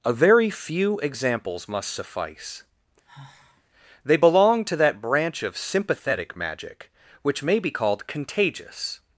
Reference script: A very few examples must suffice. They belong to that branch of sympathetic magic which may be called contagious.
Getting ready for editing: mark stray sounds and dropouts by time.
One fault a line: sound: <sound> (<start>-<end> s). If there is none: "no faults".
sound: sigh (3.0-3.6 s)